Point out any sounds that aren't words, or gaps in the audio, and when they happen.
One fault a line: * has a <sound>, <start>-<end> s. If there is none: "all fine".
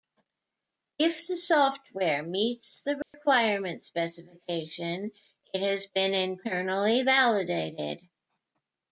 * has a dropout, 3.0-3.1 s